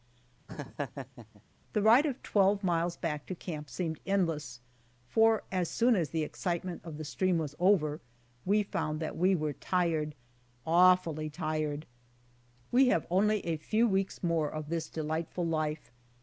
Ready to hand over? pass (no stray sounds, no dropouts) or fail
fail